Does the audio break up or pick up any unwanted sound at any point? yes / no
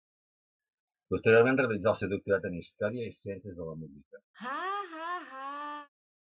yes